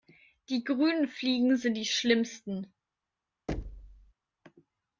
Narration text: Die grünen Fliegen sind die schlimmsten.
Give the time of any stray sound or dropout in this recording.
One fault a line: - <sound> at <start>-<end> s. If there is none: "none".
- thud at 3.5-4.1 s